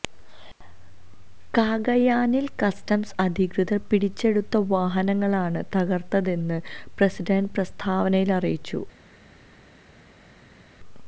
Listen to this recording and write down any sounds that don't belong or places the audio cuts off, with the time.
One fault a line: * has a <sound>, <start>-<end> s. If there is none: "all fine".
all fine